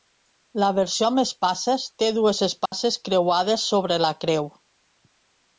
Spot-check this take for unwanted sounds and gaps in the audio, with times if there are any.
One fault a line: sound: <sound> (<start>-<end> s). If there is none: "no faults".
sound: dropout (2.7-2.7 s)